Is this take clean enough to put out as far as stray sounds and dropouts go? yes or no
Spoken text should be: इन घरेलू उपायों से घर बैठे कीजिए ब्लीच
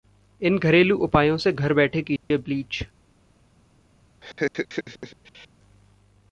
no